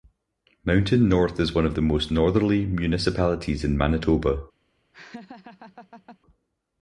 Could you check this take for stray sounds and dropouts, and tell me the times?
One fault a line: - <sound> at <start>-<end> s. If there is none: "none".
- laugh at 4.9-6.2 s